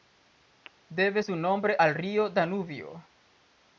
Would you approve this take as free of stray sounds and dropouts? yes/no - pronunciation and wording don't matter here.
yes